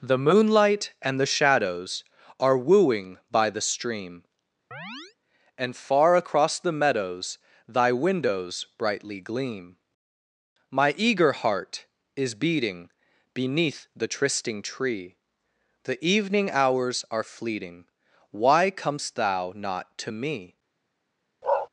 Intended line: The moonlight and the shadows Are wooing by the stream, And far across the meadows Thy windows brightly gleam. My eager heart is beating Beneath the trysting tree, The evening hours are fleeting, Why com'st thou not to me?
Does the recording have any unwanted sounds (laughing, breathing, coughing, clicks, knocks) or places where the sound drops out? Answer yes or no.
yes